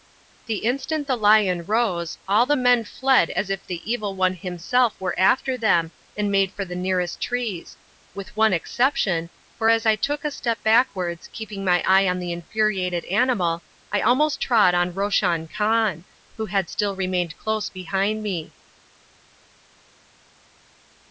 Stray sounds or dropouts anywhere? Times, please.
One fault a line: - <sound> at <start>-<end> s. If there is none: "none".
none